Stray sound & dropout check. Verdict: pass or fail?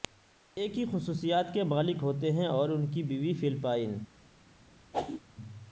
fail